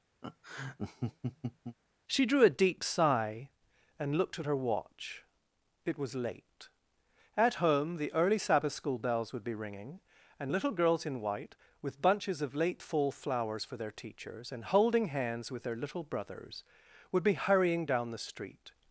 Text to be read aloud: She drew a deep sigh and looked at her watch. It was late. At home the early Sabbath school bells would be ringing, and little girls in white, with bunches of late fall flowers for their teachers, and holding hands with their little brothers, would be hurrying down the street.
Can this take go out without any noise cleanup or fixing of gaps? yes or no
no